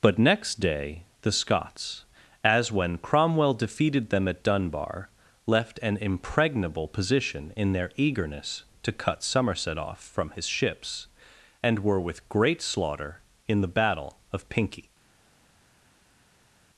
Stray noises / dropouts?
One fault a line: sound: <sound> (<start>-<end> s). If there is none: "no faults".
no faults